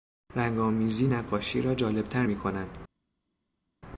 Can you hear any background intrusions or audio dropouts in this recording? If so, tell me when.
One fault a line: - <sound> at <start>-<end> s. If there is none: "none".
none